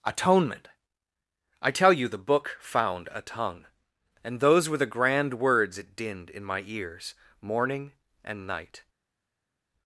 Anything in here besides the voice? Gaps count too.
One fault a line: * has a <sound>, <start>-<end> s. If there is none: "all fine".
all fine